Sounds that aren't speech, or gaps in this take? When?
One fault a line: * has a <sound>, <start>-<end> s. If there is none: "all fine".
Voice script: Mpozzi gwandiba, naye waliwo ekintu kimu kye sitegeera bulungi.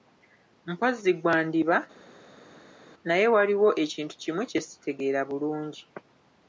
all fine